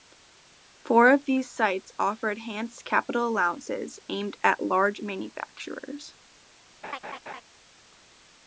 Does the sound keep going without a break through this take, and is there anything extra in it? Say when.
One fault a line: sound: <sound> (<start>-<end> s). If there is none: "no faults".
sound: laugh (6.8-7.4 s)